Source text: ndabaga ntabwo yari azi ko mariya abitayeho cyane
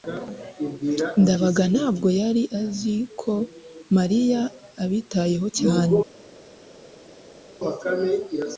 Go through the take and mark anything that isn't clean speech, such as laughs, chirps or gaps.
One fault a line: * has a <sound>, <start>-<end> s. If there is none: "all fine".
all fine